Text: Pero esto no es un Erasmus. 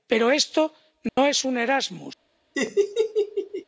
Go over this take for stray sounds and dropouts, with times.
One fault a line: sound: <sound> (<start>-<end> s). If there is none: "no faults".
sound: dropout (1.1-1.2 s)
sound: laugh (2.5-3.6 s)